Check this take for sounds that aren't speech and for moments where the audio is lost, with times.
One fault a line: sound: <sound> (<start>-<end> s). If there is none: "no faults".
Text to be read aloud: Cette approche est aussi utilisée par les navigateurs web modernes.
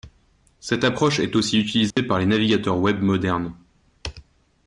sound: dropout (1.9-2.0 s)